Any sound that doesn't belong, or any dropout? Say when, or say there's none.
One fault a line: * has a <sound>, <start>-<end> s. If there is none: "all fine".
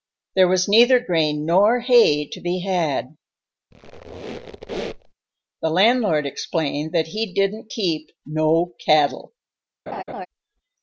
* has a squeak, 3.7-5.1 s
* has a laugh, 9.9-10.3 s